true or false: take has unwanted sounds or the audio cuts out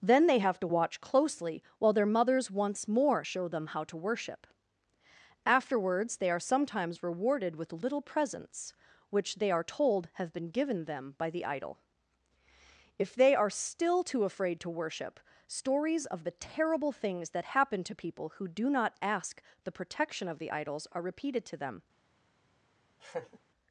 true